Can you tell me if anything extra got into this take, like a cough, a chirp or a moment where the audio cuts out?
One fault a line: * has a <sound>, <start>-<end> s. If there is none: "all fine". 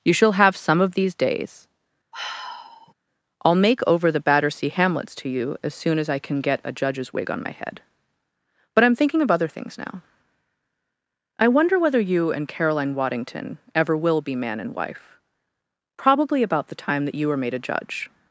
* has a sigh, 2.1-2.9 s